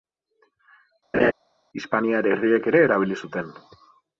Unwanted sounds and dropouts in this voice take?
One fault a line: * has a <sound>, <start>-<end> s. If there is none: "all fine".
* has a laugh, 1.1-1.3 s